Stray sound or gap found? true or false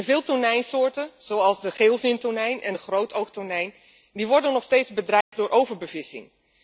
true